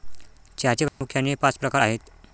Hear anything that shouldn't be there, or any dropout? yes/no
yes